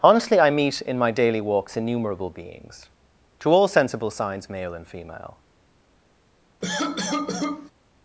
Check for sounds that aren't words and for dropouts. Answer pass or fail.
fail